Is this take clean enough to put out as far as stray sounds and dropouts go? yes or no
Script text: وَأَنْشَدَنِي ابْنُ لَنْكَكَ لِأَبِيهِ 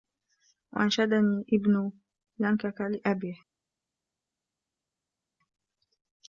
yes